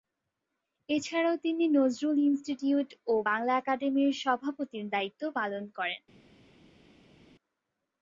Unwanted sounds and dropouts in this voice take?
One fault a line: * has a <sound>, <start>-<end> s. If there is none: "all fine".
all fine